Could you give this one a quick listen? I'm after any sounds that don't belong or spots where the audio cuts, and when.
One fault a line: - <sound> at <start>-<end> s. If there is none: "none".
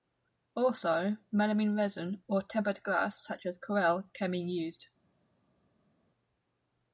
none